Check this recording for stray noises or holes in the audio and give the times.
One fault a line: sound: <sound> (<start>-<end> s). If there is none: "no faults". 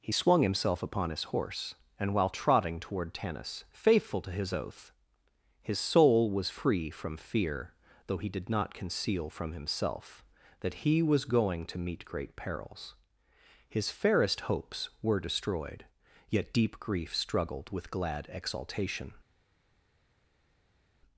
no faults